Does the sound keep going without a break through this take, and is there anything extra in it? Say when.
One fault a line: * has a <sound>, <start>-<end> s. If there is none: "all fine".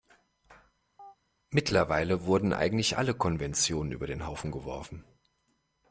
* has a chirp, 1.0-1.2 s